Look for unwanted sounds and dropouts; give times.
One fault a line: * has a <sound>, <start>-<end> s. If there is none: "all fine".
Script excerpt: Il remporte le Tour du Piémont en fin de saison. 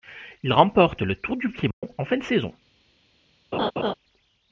* has a dropout, 1.7-1.8 s
* has a laugh, 3.5-3.9 s